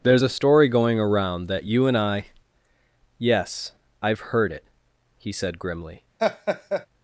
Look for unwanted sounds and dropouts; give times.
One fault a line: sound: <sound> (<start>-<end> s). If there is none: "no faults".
sound: laugh (6.2-6.9 s)